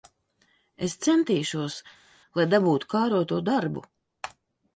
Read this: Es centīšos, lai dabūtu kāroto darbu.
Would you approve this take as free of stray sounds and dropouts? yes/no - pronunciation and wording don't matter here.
yes